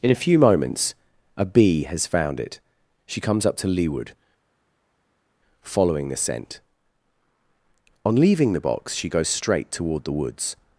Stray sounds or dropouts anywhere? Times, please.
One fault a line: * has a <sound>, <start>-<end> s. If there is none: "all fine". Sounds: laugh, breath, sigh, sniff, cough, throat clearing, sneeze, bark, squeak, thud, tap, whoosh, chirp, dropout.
all fine